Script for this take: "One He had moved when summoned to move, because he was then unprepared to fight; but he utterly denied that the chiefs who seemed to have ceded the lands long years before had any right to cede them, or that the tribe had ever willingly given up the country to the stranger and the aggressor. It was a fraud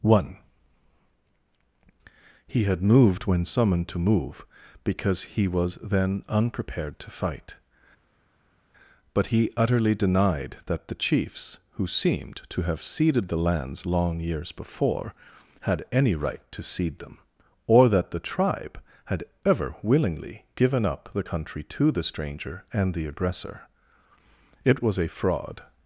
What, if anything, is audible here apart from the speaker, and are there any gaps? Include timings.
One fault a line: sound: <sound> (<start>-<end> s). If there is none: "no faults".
no faults